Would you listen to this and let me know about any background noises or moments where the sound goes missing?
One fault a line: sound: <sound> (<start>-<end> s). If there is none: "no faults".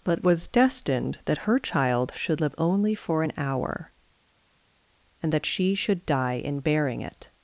no faults